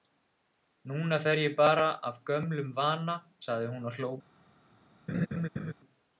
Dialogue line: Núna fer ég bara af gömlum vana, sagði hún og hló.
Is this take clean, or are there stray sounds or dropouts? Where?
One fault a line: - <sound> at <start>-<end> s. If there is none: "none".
- laugh at 5.1-5.7 s